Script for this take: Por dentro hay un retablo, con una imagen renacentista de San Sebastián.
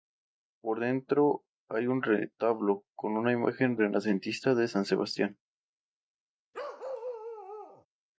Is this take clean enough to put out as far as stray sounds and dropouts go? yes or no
no